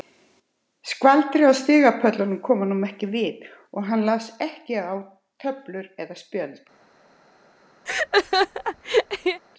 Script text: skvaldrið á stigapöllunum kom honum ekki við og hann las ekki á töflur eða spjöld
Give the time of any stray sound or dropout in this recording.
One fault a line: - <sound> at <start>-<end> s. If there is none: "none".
- laugh at 7.9-9.4 s